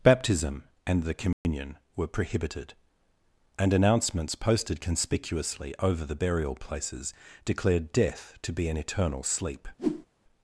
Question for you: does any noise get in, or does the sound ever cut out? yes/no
yes